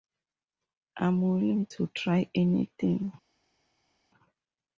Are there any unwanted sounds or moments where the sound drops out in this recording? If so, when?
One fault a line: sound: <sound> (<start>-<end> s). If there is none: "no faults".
no faults